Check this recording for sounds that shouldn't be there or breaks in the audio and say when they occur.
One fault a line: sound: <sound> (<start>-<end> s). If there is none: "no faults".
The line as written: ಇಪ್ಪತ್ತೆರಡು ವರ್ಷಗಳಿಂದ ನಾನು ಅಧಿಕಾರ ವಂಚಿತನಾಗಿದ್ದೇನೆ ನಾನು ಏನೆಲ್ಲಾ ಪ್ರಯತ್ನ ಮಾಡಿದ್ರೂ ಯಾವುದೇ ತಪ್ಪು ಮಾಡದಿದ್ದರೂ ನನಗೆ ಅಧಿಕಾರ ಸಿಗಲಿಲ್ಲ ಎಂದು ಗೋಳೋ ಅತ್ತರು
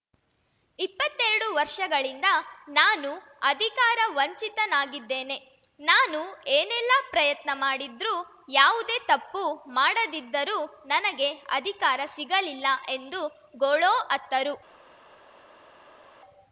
no faults